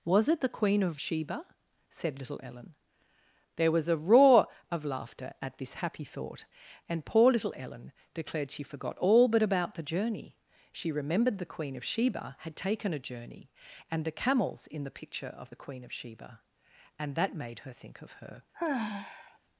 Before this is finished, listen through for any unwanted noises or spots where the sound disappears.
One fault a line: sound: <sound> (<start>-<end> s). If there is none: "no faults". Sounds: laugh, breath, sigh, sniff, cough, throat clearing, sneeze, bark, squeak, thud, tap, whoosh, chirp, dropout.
sound: sigh (18.5-19.4 s)